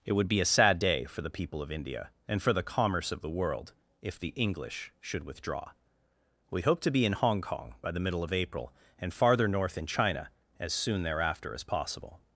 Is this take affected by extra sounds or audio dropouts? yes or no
no